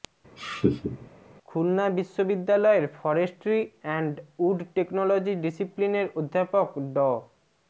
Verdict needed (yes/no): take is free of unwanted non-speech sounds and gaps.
no